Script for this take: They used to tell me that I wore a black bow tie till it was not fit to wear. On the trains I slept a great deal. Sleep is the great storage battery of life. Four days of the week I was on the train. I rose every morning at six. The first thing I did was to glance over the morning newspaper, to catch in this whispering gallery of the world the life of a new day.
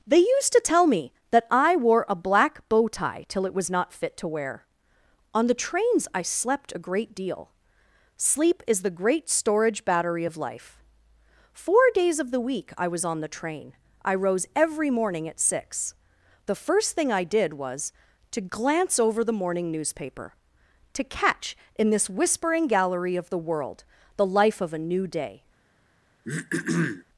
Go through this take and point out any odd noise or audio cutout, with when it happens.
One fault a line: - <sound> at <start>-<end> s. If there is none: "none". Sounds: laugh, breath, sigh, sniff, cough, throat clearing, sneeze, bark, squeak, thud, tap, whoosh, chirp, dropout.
- throat clearing at 26.2-27.0 s